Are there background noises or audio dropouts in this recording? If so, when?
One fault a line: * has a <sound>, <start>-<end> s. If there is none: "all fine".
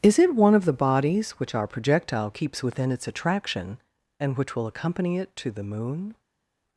all fine